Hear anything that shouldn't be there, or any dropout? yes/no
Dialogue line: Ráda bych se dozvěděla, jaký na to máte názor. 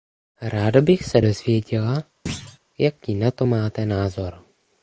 yes